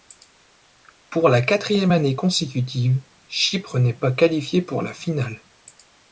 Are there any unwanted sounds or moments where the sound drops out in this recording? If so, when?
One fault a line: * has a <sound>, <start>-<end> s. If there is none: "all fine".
all fine